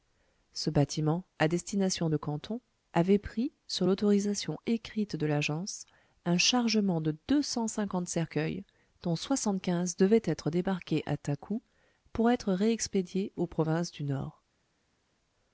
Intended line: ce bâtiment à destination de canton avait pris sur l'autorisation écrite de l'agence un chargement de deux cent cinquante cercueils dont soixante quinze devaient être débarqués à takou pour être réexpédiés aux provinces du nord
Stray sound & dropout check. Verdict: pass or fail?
pass